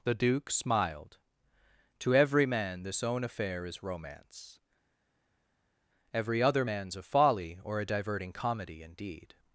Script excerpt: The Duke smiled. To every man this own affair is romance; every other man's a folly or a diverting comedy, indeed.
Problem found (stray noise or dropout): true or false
false